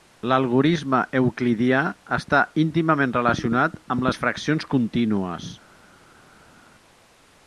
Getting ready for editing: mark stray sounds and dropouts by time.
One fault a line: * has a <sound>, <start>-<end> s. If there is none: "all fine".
all fine